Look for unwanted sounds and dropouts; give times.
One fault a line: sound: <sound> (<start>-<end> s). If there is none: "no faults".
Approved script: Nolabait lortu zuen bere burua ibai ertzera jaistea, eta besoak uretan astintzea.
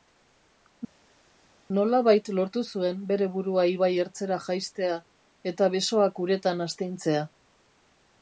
no faults